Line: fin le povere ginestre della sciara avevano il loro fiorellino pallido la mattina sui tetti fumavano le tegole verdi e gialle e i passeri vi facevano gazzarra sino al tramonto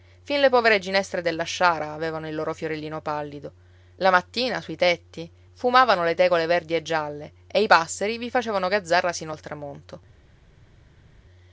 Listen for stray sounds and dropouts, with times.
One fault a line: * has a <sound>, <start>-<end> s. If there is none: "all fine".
all fine